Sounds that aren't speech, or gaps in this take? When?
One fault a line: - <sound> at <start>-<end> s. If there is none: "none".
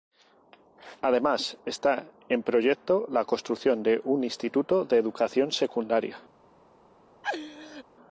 - laugh at 7.2-7.8 s